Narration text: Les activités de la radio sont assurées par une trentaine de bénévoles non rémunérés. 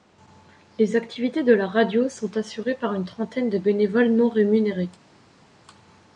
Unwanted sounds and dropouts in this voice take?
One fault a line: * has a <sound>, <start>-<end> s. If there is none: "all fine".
all fine